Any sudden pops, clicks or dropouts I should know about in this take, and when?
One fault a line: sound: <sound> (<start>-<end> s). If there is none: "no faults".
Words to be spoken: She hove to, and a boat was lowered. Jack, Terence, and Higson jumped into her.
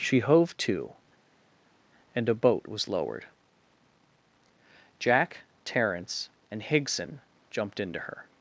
no faults